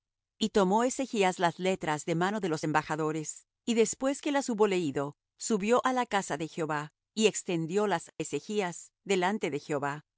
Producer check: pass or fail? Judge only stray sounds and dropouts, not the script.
pass